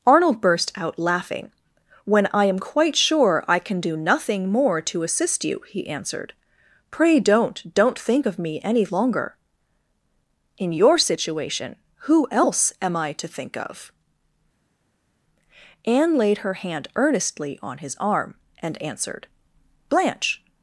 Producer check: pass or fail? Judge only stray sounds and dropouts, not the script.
pass